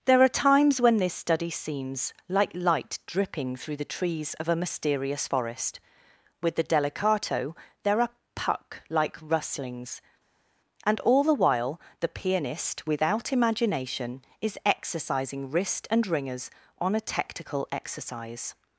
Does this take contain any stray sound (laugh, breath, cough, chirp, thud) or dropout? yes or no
no